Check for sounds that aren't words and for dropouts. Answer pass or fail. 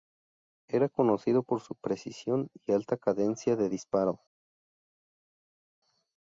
pass